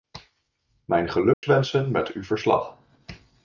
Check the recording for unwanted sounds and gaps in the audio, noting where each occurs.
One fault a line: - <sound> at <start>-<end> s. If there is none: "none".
- dropout at 1.3-1.4 s